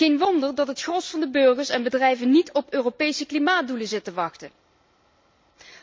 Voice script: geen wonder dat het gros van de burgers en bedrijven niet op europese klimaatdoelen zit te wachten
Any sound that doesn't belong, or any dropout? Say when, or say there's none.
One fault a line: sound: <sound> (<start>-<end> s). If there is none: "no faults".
no faults